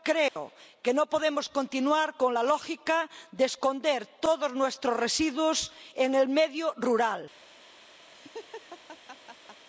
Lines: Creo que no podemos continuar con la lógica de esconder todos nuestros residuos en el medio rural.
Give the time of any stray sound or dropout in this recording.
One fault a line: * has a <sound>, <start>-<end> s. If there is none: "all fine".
* has a dropout, 0.3-0.4 s
* has a laugh, 8.1-9.6 s